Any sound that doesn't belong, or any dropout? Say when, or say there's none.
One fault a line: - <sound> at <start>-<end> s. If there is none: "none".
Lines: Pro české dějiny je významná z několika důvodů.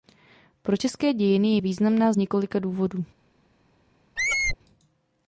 - squeak at 4.2-4.6 s